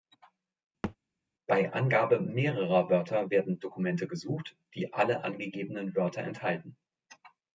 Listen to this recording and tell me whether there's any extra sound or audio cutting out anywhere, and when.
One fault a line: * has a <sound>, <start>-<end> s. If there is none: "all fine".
* has a thud, 0.8-1.0 s